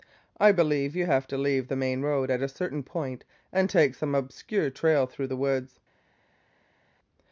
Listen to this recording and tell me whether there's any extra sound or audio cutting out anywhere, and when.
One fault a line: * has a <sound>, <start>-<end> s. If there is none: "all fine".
all fine